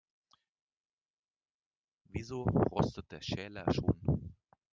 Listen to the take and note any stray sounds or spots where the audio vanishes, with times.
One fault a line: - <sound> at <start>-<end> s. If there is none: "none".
none